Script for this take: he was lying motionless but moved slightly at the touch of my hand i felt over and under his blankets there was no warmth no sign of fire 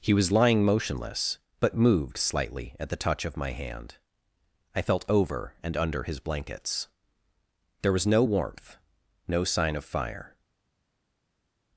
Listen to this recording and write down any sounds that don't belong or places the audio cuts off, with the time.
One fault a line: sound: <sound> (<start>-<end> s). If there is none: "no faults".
no faults